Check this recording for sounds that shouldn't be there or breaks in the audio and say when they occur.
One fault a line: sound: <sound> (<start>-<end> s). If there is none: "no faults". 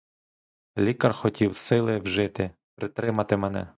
no faults